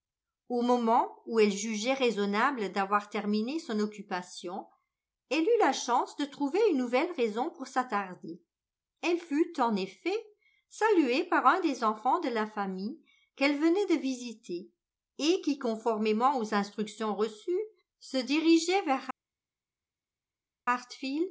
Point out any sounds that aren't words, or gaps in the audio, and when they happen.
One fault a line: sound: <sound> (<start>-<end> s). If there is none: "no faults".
no faults